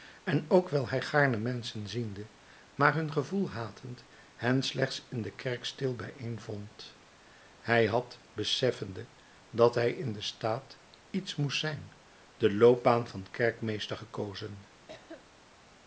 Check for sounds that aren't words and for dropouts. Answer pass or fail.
fail